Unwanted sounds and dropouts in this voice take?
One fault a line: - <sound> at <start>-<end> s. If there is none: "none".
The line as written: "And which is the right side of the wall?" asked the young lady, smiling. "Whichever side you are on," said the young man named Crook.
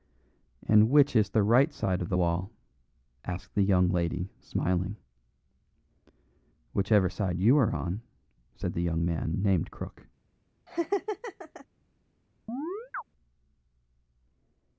- laugh at 10.7-11.7 s
- chirp at 12.5-13.0 s